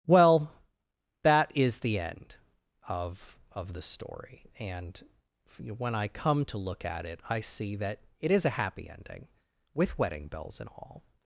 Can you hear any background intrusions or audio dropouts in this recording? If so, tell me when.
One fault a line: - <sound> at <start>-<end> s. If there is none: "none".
none